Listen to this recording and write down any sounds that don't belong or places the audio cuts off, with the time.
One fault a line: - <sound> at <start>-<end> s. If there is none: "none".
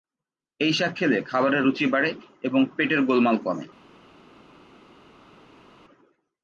none